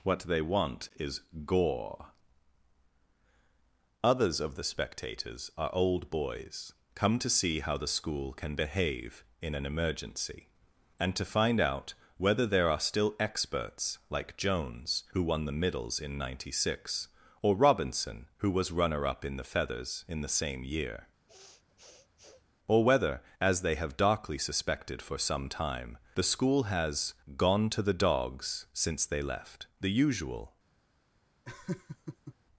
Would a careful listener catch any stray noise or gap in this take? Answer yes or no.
yes